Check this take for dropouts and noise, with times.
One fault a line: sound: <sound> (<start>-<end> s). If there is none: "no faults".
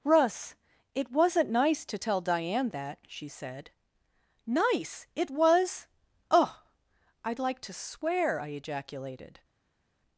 no faults